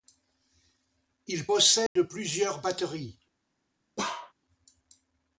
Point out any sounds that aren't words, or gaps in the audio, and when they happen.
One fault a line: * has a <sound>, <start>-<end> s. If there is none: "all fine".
* has a dropout, 1.9-2.0 s
* has a bark, 4.0-4.3 s